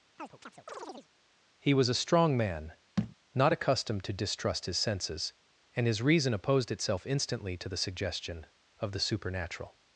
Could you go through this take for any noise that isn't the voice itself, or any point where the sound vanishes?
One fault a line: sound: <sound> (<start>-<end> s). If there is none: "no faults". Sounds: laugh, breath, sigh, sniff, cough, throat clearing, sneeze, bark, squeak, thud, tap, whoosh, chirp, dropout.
sound: chirp (0.2-1.1 s)
sound: thud (3.0-3.2 s)